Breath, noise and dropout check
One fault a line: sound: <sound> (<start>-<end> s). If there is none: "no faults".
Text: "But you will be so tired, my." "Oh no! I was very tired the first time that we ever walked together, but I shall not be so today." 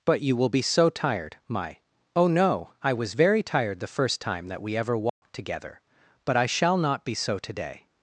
sound: dropout (5.1-5.2 s)